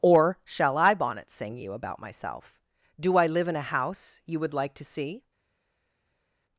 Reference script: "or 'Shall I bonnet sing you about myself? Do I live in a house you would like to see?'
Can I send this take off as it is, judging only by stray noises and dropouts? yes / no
yes